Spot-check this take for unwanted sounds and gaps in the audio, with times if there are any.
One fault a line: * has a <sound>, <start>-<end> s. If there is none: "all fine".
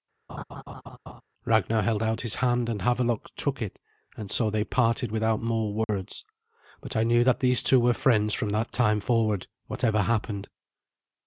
* has a laugh, 0.3-1.2 s
* has a dropout, 5.8-5.9 s